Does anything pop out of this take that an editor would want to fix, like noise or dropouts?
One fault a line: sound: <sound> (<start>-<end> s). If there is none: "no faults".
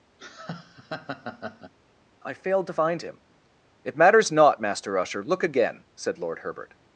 sound: laugh (0.2-1.7 s)